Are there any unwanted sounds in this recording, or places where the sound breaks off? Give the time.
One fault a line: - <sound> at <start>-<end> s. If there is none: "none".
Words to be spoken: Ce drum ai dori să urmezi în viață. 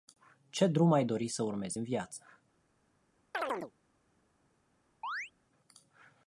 - chirp at 3.3-3.7 s
- chirp at 5.0-5.3 s